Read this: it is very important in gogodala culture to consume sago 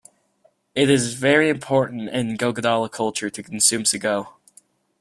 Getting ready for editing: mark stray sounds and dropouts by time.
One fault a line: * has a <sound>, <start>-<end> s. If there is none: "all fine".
all fine